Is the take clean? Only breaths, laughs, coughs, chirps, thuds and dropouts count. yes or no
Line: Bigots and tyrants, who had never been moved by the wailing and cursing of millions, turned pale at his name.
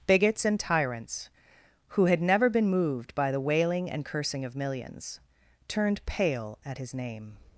yes